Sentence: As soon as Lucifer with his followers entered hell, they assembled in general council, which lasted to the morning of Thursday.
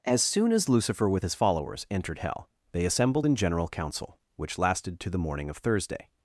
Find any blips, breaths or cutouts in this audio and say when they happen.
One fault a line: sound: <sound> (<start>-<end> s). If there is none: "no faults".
no faults